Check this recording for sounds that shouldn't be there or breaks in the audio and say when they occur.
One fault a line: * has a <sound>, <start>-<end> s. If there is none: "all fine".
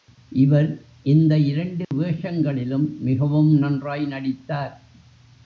* has a dropout, 1.8-1.9 s